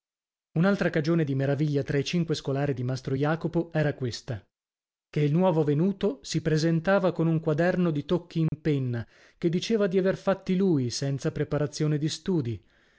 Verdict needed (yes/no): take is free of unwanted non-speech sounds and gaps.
no